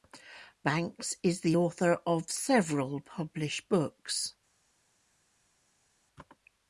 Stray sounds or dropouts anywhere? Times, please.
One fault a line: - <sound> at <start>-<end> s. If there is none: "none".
none